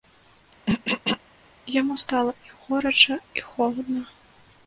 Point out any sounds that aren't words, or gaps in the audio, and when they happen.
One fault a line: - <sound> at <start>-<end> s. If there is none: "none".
- throat clearing at 0.7-1.2 s